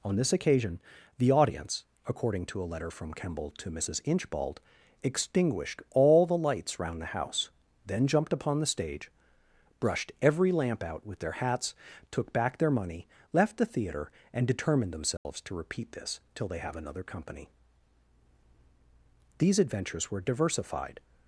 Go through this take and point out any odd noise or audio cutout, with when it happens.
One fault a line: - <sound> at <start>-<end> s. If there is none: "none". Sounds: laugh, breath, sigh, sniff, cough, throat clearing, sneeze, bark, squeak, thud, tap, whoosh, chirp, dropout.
- dropout at 15.2-15.3 s